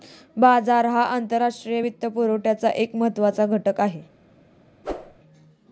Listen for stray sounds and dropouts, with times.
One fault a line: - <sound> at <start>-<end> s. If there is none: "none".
- whoosh at 4.8-5.2 s